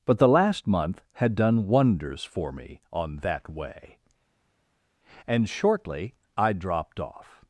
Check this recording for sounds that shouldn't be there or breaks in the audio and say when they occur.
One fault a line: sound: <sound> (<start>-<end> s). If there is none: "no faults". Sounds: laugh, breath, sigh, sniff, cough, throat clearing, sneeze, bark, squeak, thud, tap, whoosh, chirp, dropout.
no faults